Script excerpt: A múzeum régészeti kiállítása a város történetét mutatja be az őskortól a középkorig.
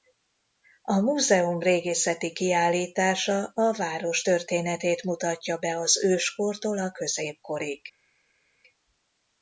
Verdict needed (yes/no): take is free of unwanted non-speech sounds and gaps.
yes